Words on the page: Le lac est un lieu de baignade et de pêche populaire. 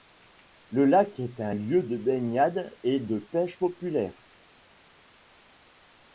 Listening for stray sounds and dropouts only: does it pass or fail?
pass